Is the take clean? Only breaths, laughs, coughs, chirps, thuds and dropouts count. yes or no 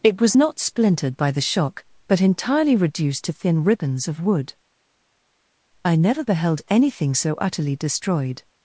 yes